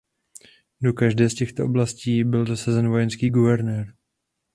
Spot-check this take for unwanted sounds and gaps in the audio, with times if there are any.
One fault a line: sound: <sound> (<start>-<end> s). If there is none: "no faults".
no faults